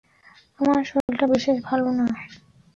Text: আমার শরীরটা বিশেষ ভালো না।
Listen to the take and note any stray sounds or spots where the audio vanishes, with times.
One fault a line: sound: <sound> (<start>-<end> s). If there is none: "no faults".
sound: dropout (1.0-1.1 s)